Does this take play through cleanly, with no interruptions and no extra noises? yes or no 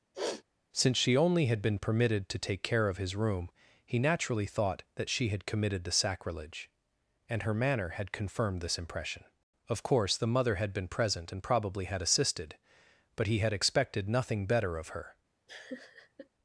no